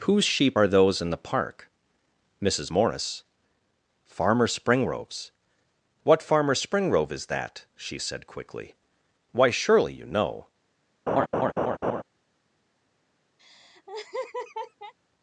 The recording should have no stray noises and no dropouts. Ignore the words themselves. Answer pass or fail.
fail